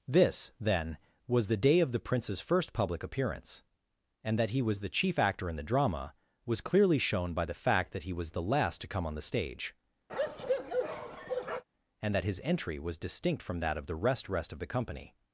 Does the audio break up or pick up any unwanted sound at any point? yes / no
yes